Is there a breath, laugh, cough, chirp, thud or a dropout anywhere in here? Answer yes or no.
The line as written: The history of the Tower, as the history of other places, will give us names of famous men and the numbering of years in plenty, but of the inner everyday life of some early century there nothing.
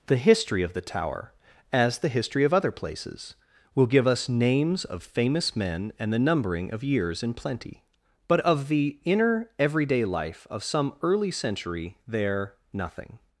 no